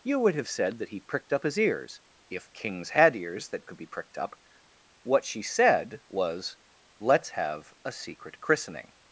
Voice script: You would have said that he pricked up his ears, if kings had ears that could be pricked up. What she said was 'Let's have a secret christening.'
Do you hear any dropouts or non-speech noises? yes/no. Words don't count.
no